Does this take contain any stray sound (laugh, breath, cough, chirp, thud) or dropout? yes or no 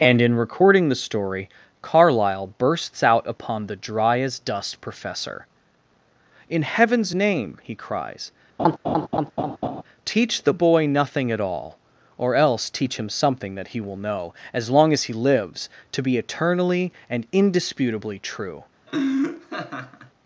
yes